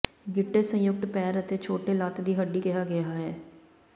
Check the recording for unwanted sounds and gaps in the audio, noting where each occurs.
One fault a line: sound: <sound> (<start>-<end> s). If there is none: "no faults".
no faults